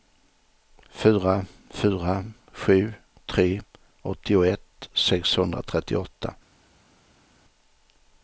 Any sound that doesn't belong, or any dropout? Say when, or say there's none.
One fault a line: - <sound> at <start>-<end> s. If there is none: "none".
none